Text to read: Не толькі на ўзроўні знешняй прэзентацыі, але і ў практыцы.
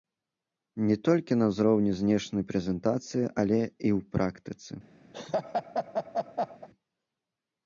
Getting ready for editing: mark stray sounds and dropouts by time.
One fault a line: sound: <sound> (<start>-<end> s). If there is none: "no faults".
sound: laugh (5.1-6.7 s)